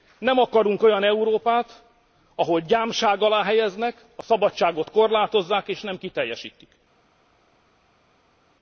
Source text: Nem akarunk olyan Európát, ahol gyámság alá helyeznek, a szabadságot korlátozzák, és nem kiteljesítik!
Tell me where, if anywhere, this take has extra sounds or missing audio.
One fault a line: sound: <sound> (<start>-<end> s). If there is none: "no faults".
no faults